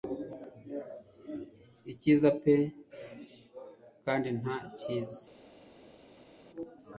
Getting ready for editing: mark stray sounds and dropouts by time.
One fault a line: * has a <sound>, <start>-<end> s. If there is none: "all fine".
all fine